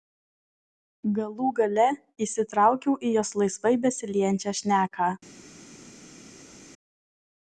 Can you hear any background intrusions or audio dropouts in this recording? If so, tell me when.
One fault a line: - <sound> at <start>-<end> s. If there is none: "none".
none